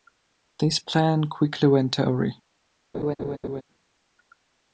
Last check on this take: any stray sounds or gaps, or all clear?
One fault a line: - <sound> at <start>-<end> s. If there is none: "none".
- laugh at 2.9-3.6 s